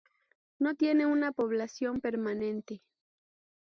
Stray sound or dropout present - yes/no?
no